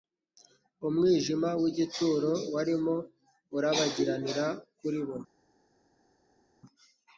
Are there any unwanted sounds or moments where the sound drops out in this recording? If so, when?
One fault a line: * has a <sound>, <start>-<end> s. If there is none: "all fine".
all fine